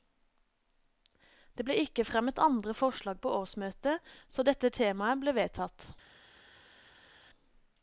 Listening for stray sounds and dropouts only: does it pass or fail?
pass